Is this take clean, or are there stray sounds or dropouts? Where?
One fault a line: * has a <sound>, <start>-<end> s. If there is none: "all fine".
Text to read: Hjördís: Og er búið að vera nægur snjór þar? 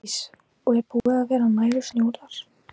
* has a dropout, 1.0-1.1 s